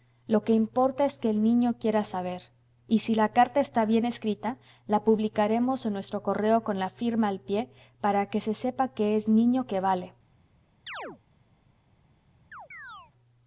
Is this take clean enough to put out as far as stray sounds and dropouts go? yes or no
no